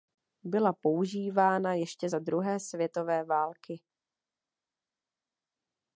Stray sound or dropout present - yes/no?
no